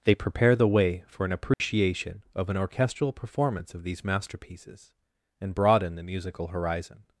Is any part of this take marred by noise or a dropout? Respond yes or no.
yes